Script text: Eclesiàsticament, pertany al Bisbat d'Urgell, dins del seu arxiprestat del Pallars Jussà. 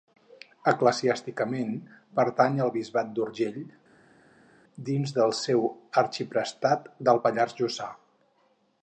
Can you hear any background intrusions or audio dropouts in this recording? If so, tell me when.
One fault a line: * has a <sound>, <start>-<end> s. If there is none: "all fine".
all fine